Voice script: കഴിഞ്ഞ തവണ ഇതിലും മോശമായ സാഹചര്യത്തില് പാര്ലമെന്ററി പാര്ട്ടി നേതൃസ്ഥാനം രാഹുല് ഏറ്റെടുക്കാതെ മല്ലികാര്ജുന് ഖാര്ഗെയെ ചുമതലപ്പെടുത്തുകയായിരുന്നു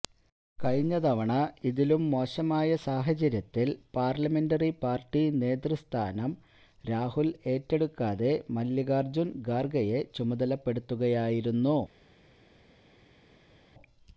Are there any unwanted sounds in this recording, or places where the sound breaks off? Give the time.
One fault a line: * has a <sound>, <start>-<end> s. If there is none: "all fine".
all fine